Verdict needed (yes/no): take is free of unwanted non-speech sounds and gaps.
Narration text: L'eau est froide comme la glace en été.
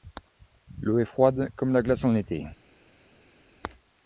yes